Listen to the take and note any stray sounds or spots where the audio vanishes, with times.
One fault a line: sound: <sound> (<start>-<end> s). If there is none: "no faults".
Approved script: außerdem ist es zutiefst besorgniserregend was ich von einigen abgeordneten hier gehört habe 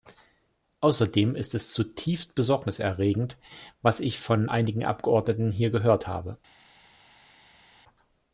no faults